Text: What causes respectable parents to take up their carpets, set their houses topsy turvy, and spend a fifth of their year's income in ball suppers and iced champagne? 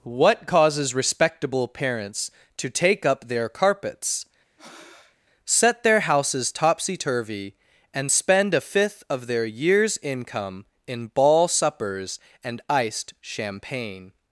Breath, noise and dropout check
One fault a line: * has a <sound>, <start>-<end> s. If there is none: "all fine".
* has a breath, 4.6-5.2 s